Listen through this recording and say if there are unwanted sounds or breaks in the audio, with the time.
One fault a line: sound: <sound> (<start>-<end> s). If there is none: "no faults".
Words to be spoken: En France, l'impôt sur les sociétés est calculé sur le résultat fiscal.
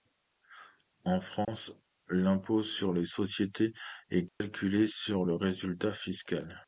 sound: dropout (1.4-1.5 s)
sound: dropout (4.3-4.4 s)